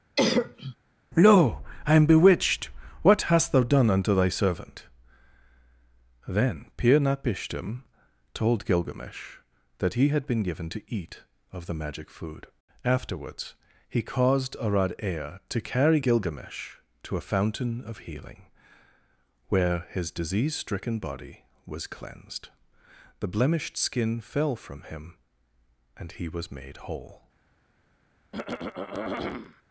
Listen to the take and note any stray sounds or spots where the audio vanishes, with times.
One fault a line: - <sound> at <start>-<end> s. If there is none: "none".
- cough at 0.2-0.8 s
- throat clearing at 28.3-29.6 s